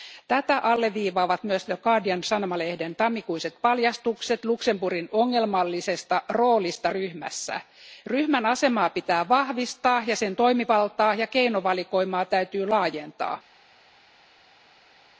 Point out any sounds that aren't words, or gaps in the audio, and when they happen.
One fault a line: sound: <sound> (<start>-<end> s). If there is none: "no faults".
no faults